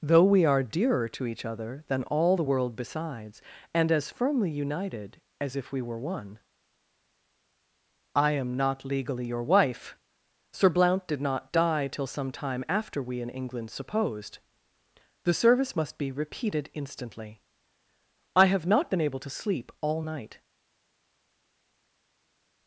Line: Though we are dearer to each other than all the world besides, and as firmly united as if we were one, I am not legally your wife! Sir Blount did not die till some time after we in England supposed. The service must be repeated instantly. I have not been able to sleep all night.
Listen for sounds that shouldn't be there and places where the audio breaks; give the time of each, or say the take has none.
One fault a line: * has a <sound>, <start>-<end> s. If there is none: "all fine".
all fine